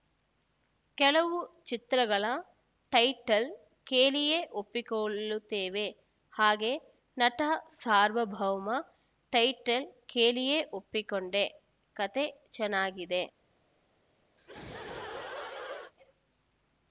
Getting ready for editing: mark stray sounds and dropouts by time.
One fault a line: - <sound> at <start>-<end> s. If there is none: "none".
- laugh at 14.4-15.9 s